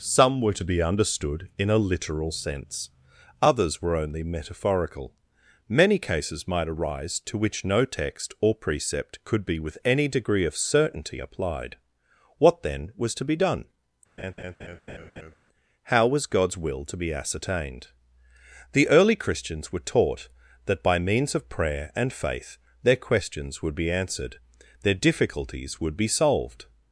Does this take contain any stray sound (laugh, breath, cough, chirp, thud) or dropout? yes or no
yes